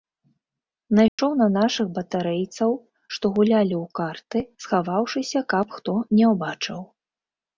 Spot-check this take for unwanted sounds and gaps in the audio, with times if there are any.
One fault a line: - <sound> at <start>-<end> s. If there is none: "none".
- dropout at 1.1-1.2 s